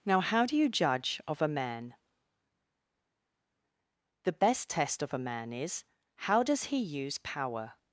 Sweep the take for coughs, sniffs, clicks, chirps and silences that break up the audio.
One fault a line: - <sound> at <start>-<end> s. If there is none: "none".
none